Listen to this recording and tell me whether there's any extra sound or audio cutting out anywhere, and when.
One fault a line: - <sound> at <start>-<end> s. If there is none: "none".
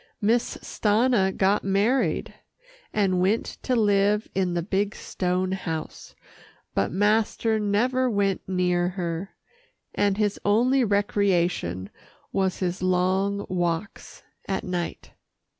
none